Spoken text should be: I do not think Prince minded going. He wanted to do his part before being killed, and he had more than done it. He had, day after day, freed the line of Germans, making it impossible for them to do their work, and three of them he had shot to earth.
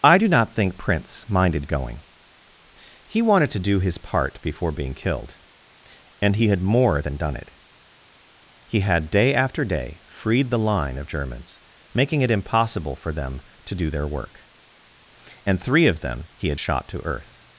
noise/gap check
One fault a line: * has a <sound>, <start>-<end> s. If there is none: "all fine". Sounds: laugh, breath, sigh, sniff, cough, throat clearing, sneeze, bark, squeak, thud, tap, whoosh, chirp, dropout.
all fine